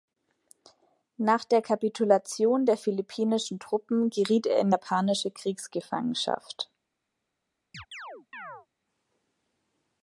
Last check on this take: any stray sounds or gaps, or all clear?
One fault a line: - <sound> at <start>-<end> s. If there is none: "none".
- chirp at 7.7-8.7 s